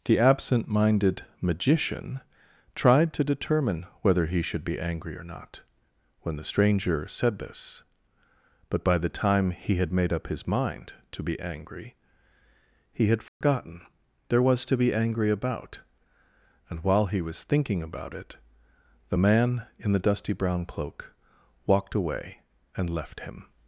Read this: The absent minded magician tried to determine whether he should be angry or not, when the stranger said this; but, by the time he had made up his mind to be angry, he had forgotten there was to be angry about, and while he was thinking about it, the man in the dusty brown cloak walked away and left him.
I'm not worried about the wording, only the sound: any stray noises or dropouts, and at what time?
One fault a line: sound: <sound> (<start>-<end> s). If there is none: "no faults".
sound: dropout (13.3-13.4 s)